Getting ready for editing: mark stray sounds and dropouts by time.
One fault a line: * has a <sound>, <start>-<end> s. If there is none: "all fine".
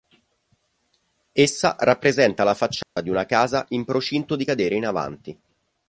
* has a dropout, 2.8-3.0 s